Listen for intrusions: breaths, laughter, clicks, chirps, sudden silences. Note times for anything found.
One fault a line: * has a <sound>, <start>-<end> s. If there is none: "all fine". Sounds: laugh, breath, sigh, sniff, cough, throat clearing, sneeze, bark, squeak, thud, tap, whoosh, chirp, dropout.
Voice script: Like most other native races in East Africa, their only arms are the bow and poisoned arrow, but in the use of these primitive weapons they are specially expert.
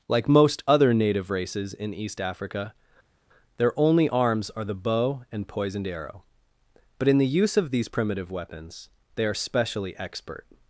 all fine